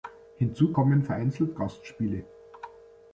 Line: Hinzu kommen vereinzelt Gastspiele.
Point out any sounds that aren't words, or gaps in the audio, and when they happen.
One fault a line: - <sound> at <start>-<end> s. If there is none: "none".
none